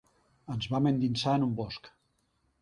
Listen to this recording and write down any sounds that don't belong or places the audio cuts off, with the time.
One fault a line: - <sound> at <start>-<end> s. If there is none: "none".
none